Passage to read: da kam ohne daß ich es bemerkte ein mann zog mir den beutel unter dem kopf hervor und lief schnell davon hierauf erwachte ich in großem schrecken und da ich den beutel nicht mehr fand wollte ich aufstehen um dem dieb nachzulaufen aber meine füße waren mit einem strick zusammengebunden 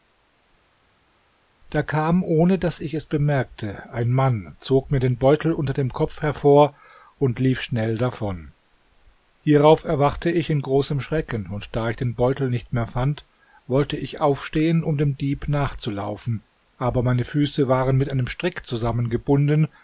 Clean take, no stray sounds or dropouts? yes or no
yes